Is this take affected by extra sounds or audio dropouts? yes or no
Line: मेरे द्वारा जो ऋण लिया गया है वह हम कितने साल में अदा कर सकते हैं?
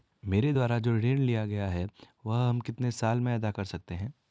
no